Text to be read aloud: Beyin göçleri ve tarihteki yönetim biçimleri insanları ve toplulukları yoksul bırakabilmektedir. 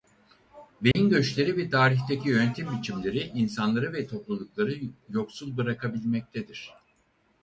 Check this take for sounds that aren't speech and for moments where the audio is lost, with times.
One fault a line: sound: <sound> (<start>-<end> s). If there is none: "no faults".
sound: dropout (0.9-1.0 s)